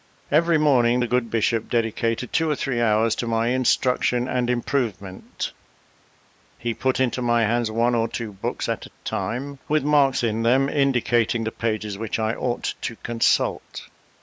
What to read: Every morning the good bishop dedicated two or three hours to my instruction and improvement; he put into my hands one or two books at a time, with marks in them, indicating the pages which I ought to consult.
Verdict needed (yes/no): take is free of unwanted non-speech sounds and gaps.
yes